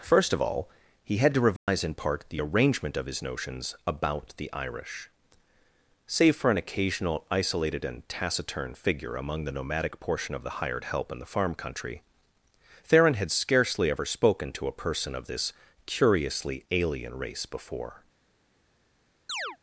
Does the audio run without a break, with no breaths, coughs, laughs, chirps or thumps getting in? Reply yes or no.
no